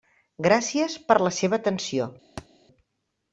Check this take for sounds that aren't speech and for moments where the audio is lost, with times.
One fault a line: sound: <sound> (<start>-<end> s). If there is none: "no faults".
sound: thud (2.4-2.5 s)